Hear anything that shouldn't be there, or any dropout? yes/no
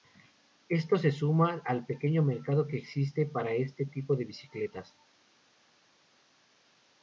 no